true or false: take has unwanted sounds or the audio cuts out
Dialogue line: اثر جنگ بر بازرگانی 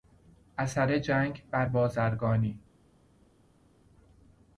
false